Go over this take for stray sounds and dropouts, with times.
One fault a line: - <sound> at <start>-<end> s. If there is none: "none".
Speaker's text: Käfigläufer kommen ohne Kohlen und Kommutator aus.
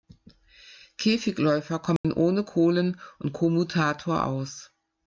- dropout at 2.0-2.0 s